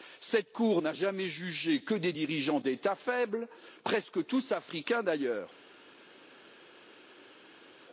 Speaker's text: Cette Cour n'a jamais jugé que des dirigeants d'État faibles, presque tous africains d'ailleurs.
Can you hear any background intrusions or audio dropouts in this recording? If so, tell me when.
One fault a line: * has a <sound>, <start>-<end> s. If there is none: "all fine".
all fine